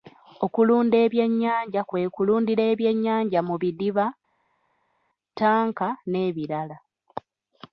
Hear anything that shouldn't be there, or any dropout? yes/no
no